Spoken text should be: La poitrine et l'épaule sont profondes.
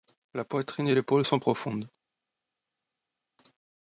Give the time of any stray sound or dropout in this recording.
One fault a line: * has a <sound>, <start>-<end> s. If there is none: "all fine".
all fine